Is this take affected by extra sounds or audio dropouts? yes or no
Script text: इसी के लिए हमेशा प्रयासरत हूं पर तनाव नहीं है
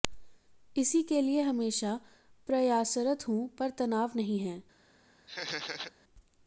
yes